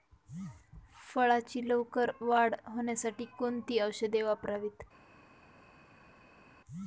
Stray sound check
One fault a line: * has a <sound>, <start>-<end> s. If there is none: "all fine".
all fine